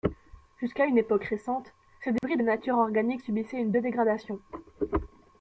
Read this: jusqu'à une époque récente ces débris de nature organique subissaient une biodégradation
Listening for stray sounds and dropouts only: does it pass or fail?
fail